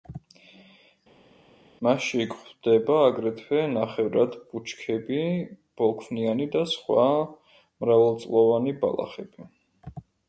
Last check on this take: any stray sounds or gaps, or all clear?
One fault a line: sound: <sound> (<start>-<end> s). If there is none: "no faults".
no faults